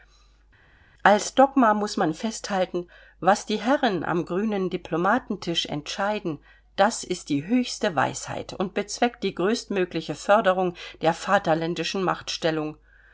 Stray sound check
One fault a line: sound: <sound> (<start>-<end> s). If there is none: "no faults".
no faults